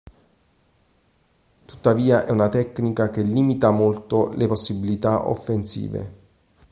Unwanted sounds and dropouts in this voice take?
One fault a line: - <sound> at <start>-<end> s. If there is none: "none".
none